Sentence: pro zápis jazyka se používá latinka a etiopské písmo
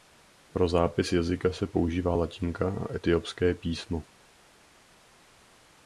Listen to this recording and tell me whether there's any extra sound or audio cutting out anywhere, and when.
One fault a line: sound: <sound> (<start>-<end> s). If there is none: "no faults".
no faults